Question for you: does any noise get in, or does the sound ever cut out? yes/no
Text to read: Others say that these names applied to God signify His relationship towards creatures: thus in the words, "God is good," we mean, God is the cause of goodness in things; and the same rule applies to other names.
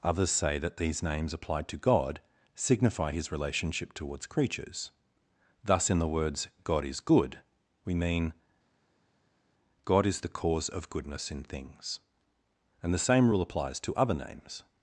no